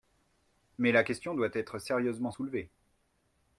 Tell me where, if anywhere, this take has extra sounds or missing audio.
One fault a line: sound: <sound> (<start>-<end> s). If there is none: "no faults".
no faults